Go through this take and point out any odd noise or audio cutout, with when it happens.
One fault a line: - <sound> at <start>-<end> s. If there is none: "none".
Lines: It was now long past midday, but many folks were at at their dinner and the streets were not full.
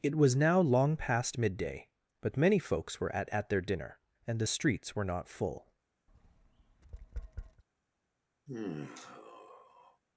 - tap at 6.1-7.6 s
- sigh at 8.5-10.0 s